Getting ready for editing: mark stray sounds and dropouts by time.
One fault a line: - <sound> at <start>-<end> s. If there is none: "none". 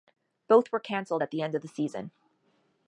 none